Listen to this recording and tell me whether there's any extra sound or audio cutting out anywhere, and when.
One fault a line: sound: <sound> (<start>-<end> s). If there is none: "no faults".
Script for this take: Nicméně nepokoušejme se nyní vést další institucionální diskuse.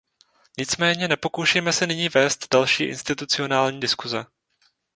no faults